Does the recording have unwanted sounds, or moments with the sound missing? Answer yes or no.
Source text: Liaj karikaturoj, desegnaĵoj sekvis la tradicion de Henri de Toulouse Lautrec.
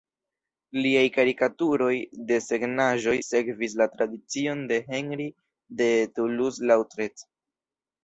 no